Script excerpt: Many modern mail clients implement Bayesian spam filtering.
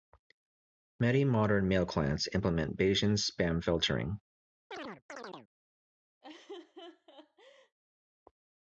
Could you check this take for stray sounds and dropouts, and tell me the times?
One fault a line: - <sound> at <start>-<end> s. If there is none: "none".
- chirp at 4.7-5.5 s
- laugh at 6.2-7.8 s